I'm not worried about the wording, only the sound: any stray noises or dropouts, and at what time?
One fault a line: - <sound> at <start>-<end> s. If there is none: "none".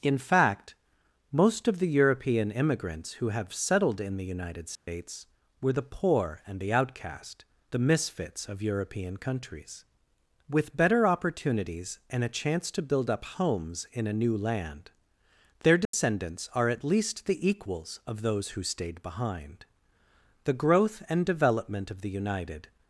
- dropout at 4.8-4.9 s
- dropout at 15.8-15.9 s